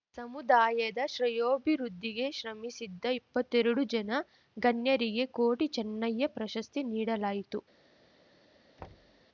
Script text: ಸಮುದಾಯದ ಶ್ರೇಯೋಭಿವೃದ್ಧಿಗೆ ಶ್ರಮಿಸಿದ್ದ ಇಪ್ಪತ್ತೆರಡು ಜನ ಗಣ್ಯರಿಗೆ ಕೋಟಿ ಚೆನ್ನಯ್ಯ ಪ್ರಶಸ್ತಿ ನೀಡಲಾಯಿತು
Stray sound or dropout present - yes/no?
yes